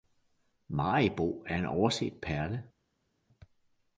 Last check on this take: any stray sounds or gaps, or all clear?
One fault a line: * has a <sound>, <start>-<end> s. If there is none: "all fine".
all fine